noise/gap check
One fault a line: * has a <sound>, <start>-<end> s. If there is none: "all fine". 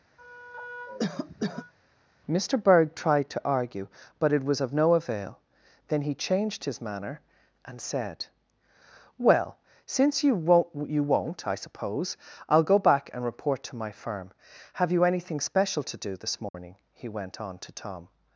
* has a cough, 0.2-1.7 s
* has a dropout, 16.5-16.5 s